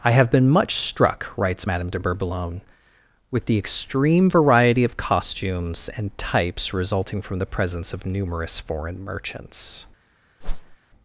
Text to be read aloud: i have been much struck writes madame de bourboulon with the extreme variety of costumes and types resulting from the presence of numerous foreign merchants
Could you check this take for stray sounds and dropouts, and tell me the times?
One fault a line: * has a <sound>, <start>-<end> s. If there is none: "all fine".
* has a whoosh, 10.4-10.8 s